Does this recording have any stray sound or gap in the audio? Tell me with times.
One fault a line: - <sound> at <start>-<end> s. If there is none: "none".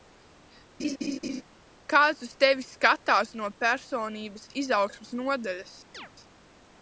- laugh at 0.8-1.4 s
- chirp at 5.9-6.1 s